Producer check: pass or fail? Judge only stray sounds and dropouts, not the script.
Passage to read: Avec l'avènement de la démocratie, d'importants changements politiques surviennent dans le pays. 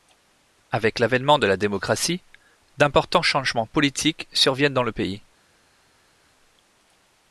pass